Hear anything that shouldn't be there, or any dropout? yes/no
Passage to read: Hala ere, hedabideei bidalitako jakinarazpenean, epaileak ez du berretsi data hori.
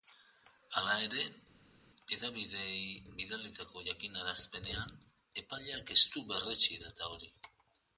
no